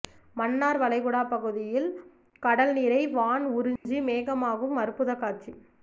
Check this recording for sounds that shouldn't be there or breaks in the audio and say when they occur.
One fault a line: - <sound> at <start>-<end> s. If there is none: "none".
- dropout at 3.8-3.9 s